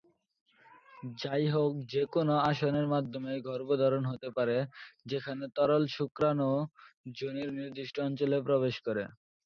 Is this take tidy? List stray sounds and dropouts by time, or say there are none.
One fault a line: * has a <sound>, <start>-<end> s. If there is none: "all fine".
all fine